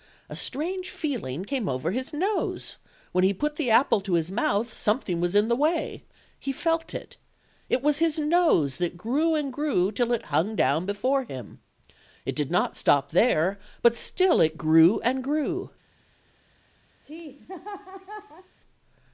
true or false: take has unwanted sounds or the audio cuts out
true